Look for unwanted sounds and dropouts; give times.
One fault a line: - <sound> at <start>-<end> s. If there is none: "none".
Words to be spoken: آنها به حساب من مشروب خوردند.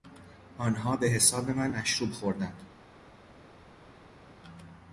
none